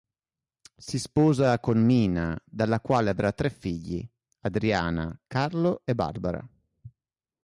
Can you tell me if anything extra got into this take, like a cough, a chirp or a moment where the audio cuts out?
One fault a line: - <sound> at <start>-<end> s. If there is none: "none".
none